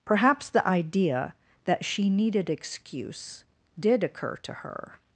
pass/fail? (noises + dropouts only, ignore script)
pass